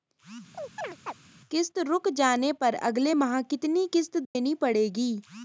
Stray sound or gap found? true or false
true